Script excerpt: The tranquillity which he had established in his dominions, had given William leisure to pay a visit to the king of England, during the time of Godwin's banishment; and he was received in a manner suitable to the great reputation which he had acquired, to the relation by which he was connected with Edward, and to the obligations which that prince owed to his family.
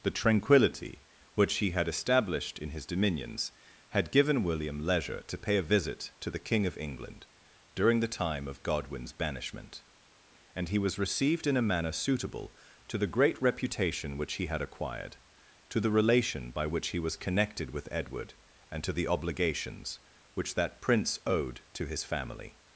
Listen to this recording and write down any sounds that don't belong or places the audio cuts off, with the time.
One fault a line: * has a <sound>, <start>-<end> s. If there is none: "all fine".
all fine